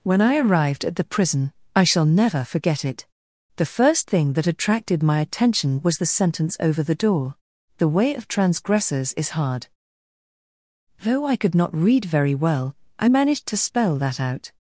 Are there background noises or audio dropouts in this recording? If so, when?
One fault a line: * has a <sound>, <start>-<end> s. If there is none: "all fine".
all fine